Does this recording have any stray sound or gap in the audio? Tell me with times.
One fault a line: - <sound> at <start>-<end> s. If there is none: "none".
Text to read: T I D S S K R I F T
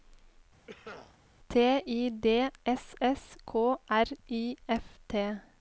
- cough at 0.7-1.2 s